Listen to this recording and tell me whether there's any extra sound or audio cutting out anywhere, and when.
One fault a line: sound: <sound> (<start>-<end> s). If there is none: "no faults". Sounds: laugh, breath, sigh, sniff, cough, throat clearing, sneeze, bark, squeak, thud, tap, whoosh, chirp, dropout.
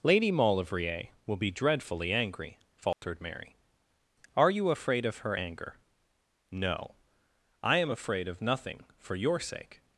sound: dropout (2.9-3.0 s)